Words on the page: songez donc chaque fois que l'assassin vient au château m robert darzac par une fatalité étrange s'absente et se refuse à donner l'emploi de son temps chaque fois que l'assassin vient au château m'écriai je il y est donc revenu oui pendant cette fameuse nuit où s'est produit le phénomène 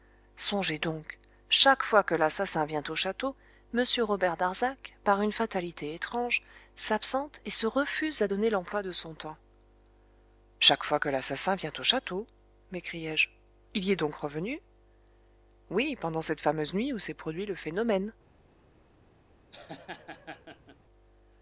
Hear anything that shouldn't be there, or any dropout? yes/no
yes